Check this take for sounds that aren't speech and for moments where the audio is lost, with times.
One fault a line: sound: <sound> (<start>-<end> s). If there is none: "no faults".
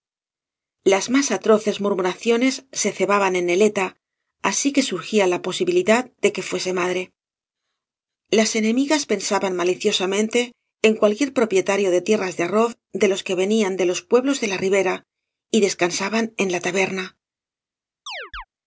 sound: chirp (18.1-18.4 s)